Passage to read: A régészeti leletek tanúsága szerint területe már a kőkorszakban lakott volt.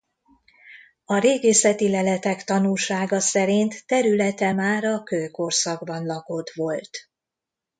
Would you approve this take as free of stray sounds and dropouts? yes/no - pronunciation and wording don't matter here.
yes